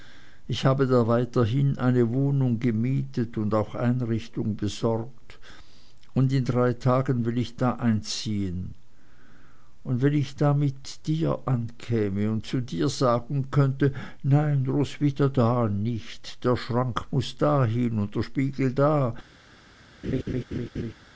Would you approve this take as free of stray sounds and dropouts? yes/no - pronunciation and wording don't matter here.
no